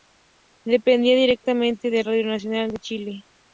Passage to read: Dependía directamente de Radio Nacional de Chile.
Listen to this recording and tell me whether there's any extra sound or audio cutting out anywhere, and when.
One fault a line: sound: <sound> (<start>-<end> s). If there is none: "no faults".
no faults